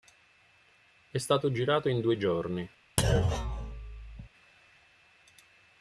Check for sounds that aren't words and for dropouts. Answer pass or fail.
fail